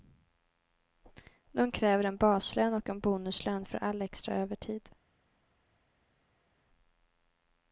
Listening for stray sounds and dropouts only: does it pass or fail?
pass